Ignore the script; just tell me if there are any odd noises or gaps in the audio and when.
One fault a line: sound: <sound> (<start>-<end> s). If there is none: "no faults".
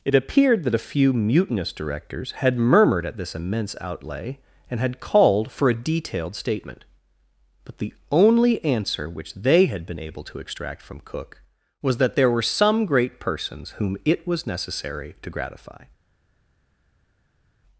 no faults